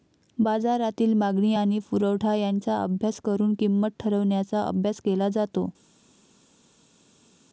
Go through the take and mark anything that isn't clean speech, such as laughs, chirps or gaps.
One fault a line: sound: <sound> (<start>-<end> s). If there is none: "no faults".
no faults